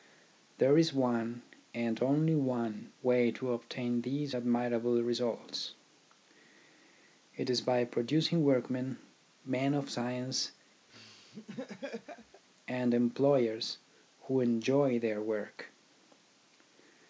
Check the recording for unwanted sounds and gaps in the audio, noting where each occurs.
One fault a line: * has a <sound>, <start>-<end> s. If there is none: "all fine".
* has a laugh, 10.9-12.4 s